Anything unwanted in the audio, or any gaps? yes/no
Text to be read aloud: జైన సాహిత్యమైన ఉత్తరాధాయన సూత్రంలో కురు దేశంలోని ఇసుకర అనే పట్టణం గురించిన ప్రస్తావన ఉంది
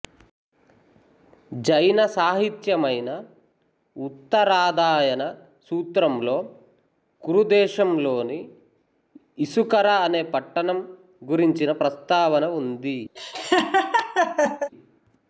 yes